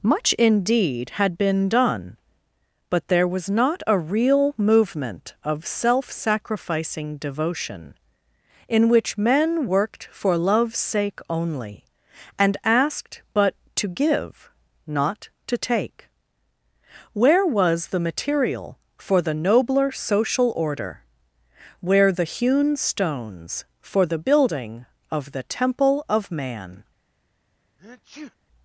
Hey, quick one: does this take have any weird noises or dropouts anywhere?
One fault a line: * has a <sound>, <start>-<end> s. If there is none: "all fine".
* has a sneeze, 27.8-28.4 s